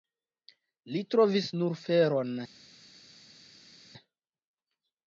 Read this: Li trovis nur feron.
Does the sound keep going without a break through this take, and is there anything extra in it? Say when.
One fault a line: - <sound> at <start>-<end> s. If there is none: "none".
none